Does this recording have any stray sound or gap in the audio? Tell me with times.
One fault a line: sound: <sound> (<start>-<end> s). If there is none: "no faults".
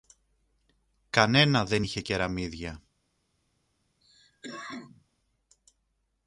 sound: cough (4.0-5.0 s)